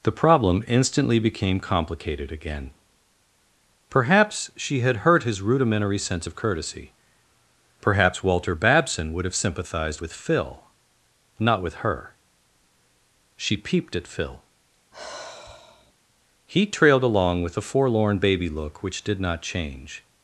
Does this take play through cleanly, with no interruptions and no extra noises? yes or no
no